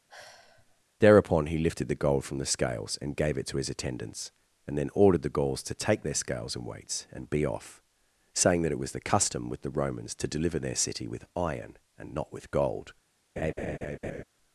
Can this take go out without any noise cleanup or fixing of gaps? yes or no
no